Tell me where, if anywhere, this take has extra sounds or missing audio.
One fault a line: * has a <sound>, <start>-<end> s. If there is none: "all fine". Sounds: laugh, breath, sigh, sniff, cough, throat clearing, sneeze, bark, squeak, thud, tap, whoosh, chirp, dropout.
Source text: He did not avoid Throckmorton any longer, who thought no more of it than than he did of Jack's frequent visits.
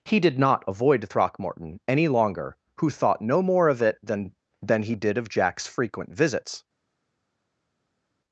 all fine